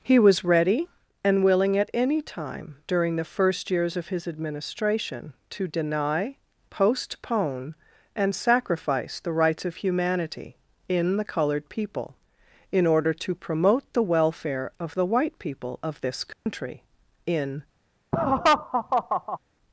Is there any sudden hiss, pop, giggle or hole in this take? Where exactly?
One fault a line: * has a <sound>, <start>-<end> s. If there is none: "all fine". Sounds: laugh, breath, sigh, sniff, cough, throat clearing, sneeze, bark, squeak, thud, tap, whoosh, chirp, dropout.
* has a dropout, 16.3-16.5 s
* has a laugh, 18.1-19.4 s